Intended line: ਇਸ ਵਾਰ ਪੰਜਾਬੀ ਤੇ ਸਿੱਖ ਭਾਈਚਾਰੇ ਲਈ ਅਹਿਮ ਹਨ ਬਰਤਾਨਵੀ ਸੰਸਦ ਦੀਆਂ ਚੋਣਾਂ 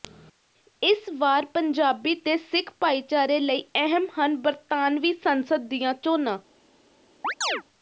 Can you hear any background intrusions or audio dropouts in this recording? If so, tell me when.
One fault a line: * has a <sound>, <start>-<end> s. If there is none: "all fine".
* has a chirp, 7.2-7.6 s